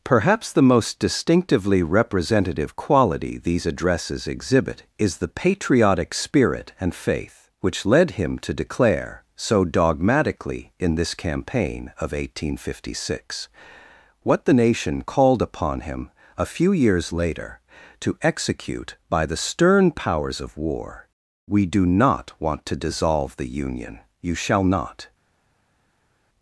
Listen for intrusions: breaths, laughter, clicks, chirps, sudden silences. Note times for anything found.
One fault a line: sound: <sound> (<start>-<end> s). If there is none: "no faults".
no faults